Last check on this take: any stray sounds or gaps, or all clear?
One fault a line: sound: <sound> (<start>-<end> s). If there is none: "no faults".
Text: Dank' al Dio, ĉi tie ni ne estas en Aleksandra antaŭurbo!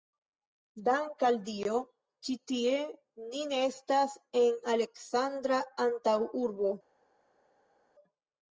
no faults